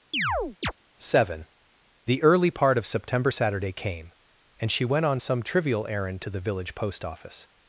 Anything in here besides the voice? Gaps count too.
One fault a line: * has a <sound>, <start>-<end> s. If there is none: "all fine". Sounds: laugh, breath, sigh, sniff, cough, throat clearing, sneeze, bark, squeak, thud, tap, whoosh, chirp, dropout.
* has a chirp, 0.1-0.7 s